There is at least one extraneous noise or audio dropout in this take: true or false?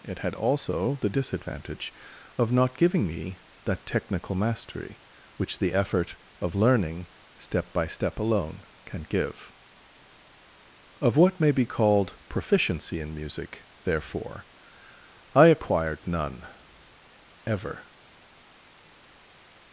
false